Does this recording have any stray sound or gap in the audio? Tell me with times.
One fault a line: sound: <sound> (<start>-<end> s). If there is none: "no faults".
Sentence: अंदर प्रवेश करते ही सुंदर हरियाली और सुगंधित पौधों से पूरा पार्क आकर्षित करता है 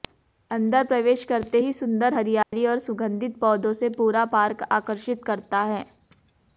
sound: dropout (2.4-2.5 s)